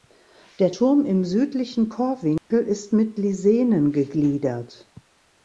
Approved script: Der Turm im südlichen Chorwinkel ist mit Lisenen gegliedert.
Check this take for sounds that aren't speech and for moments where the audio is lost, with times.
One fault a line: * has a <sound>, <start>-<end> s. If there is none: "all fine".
* has a dropout, 2.4-2.5 s